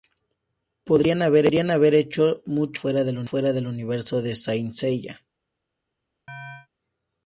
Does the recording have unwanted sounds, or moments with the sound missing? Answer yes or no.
yes